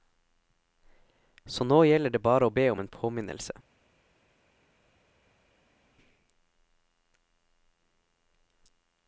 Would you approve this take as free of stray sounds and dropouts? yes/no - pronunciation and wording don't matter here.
yes